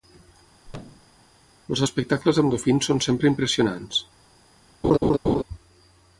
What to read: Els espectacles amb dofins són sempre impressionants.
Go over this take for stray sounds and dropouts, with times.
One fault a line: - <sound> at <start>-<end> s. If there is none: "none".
- thud at 0.7-1.2 s
- laugh at 4.8-5.4 s